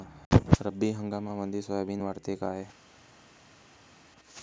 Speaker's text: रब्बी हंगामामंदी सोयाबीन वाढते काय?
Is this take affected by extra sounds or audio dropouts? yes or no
no